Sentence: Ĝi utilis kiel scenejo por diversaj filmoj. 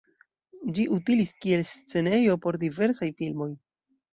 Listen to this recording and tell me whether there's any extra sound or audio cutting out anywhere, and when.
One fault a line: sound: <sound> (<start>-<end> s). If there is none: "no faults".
no faults